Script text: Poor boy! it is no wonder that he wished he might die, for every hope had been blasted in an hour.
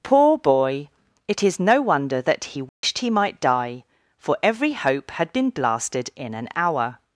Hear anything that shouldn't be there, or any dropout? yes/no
yes